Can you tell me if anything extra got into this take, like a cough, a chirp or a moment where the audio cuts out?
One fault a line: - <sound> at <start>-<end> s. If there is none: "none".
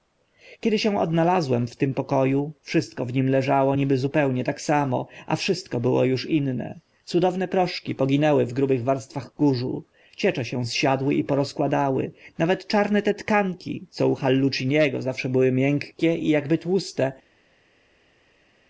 none